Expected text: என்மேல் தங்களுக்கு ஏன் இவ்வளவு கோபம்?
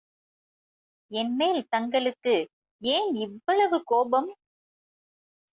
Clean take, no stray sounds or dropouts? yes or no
yes